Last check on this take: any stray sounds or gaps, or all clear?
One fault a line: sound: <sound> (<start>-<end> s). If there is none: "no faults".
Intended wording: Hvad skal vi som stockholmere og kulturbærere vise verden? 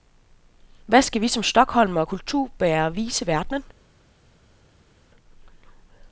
no faults